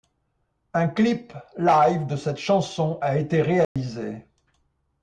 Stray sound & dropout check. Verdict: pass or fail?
fail